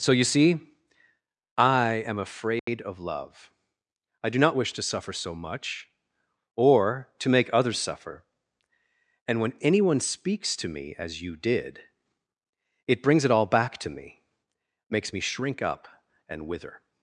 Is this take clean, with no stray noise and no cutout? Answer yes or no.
no